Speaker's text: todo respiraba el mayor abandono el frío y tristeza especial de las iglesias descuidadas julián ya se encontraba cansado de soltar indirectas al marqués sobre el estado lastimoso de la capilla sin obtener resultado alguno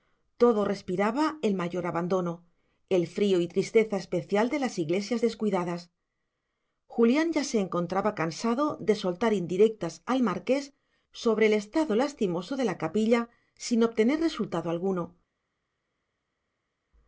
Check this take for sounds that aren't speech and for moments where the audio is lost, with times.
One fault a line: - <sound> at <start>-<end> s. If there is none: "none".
none